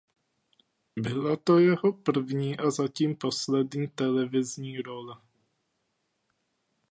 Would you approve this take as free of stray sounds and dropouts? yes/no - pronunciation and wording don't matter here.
yes